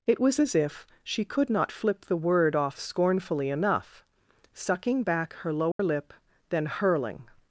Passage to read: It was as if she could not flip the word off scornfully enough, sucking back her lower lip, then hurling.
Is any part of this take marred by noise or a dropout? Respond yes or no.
yes